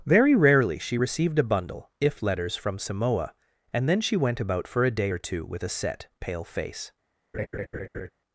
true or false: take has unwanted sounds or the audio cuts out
true